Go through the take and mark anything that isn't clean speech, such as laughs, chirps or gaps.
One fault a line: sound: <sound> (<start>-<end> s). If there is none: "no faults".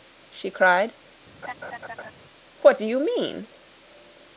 sound: laugh (1.4-2.1 s)